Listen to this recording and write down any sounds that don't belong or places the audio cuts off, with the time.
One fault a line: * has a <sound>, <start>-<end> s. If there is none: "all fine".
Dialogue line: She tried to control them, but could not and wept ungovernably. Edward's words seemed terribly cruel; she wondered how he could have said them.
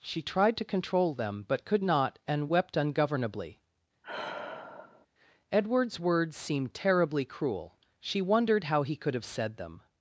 * has a sigh, 4.0-5.1 s